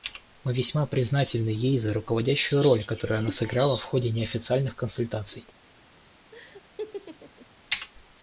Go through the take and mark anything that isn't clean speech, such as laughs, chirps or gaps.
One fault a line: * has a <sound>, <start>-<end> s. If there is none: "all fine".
* has a laugh, 6.3-7.5 s